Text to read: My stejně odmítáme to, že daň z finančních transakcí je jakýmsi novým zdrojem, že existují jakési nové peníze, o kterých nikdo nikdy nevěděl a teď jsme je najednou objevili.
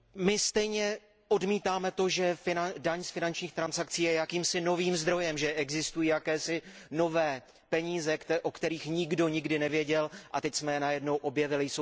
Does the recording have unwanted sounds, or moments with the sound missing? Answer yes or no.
no